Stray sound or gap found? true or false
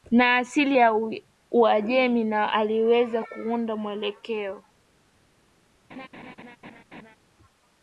true